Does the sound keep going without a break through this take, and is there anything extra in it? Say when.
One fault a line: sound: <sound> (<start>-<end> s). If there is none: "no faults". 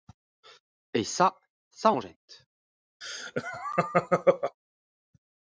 sound: laugh (3.0-4.6 s)